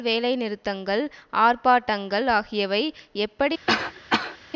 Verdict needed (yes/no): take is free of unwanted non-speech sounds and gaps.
no